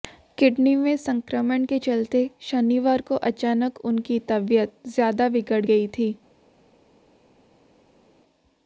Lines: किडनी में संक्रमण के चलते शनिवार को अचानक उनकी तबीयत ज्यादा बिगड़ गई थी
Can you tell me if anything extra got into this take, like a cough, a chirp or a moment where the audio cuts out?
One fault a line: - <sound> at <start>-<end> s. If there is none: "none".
none